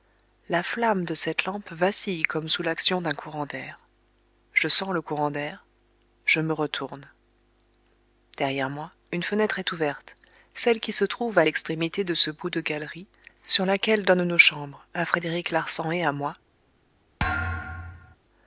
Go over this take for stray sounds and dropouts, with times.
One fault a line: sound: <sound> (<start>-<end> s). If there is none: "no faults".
sound: thud (17.2-18.2 s)